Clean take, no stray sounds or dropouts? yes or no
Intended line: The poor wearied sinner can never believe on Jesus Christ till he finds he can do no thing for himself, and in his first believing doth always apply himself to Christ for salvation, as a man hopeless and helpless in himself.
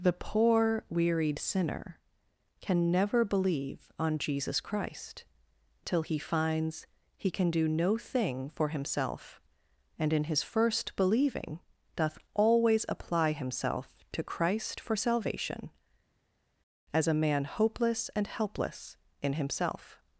yes